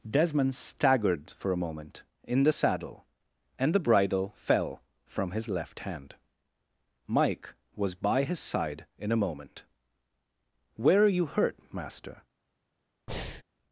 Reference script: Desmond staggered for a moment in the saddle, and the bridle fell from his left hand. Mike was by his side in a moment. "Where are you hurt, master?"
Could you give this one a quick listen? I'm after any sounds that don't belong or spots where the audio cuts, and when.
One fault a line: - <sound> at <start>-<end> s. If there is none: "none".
- breath at 13.1-13.4 s